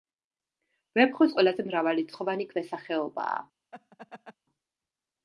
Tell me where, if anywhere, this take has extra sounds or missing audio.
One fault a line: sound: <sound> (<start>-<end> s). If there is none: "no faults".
sound: laugh (3.7-4.4 s)